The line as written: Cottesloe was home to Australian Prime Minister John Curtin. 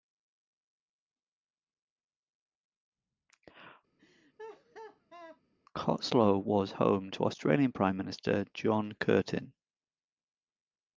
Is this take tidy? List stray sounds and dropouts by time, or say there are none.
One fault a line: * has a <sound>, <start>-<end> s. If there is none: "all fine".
* has a laugh, 4.0-5.4 s